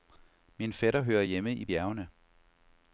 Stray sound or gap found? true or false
false